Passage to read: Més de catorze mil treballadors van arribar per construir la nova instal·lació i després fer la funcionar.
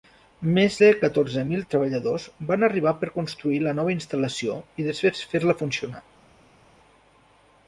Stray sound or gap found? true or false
false